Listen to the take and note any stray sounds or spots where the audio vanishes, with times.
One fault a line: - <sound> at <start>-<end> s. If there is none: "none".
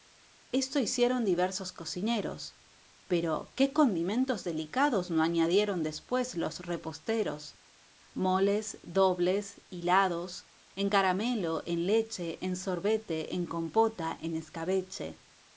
none